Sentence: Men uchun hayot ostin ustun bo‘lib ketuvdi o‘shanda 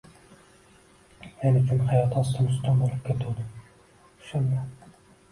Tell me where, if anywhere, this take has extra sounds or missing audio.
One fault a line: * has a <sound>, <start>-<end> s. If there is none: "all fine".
all fine